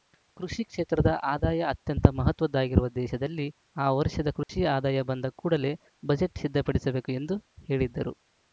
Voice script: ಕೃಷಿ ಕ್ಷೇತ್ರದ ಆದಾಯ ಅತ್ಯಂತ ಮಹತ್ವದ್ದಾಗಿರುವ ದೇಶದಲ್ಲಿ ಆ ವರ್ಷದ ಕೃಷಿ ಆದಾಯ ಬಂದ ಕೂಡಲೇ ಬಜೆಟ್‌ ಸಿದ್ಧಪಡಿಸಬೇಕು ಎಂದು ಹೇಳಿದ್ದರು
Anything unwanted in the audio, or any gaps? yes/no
yes